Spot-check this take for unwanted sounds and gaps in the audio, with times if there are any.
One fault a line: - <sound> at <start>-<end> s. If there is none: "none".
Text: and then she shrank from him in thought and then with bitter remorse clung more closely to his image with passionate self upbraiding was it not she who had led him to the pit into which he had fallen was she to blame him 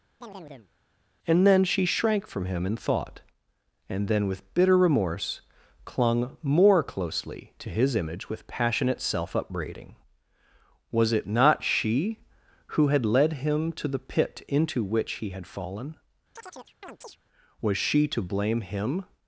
- chirp at 0.2-0.7 s
- chirp at 16.4-17.2 s